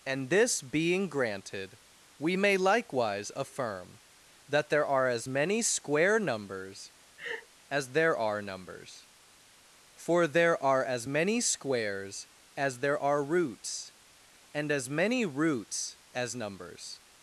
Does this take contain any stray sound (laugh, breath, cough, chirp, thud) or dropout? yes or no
yes